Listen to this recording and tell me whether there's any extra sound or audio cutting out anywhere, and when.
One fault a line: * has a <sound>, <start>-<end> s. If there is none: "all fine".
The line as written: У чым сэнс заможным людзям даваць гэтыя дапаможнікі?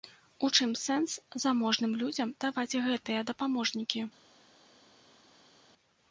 all fine